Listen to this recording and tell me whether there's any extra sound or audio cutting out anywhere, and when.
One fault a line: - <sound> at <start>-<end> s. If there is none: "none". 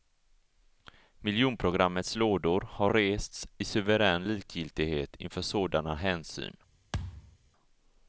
- thud at 6.9-7.4 s